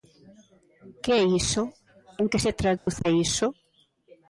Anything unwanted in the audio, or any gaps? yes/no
yes